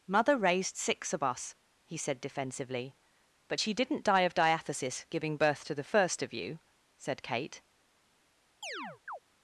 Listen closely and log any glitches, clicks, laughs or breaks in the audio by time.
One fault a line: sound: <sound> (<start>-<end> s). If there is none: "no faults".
sound: chirp (8.6-9.2 s)